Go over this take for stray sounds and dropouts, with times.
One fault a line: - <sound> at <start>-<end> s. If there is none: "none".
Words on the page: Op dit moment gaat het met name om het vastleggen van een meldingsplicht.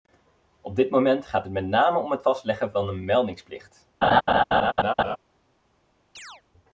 - laugh at 4.0-5.2 s
- chirp at 6.2-6.4 s